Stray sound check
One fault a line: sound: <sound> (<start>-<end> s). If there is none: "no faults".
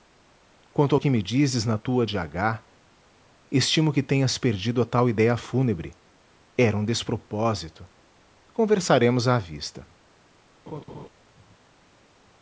sound: laugh (10.7-11.1 s)